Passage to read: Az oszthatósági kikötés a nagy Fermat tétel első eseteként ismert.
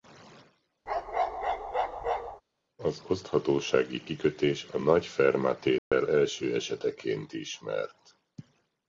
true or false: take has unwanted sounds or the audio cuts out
true